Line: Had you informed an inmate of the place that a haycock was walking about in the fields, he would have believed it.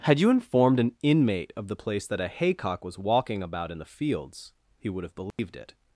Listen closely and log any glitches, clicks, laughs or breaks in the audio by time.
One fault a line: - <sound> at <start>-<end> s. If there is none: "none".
- dropout at 5.3-5.4 s